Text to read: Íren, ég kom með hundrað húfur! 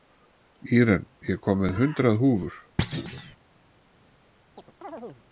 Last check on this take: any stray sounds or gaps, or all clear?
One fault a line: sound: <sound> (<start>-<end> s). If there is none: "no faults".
sound: thud (2.8-3.4 s)
sound: chirp (4.6-5.2 s)